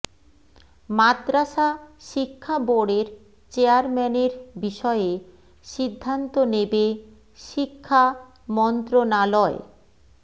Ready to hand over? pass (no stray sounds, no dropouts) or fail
pass